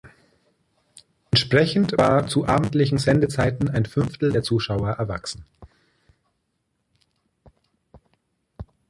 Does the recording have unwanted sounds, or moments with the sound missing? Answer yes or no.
no